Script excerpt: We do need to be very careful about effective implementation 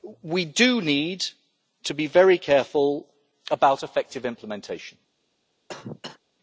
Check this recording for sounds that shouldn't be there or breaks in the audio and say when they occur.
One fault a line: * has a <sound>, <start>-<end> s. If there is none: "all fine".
* has a cough, 5.7-6.2 s